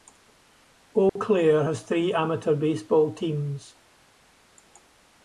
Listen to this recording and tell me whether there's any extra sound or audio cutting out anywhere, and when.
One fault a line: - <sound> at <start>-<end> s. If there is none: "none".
- dropout at 1.1-1.2 s